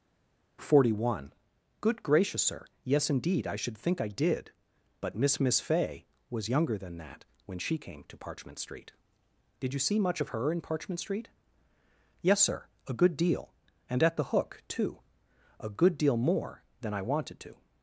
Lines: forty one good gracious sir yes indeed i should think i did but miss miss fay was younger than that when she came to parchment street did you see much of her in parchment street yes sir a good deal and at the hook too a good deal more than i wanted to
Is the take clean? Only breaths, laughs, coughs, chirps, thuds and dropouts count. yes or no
yes